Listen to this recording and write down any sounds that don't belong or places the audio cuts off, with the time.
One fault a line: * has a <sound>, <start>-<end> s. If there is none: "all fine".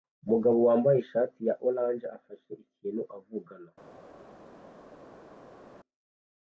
all fine